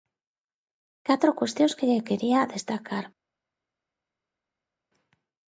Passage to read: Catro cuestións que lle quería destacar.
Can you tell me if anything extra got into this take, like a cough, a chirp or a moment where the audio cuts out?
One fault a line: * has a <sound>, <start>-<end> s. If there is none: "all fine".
all fine